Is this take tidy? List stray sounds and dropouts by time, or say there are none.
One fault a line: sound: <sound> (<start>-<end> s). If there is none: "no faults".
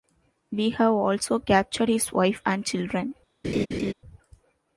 sound: laugh (3.4-3.9 s)